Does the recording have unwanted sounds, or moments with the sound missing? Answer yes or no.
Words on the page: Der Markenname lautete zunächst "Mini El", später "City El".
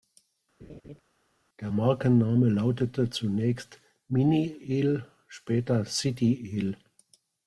yes